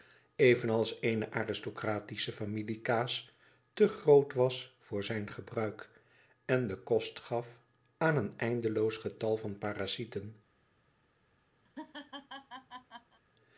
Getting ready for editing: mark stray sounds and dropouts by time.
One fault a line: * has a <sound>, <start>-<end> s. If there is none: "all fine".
* has a laugh, 11.6-13.2 s